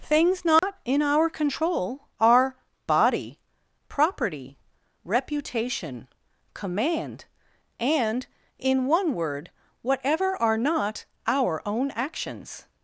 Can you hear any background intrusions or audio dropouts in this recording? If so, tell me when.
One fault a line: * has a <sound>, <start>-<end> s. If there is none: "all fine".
* has a dropout, 0.6-0.6 s